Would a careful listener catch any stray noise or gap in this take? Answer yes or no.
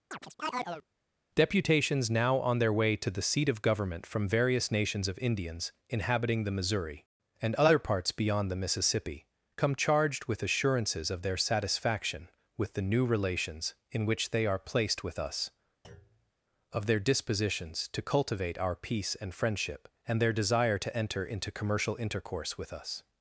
yes